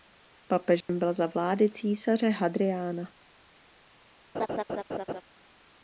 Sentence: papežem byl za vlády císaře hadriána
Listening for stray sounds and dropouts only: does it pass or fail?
fail